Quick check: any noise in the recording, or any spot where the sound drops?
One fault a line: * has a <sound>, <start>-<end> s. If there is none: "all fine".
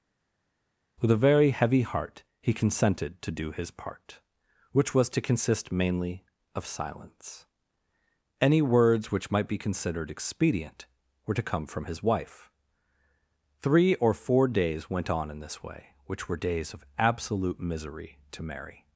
all fine